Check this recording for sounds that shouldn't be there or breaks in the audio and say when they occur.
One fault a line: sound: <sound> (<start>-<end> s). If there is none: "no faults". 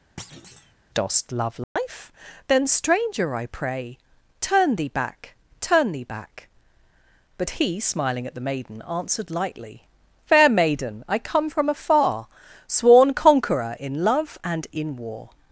sound: thud (0.2-0.7 s)
sound: dropout (1.6-1.8 s)